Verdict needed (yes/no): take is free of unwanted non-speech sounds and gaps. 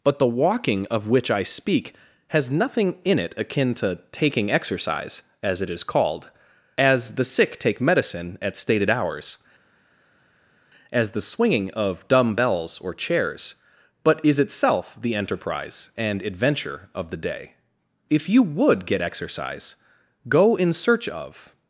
yes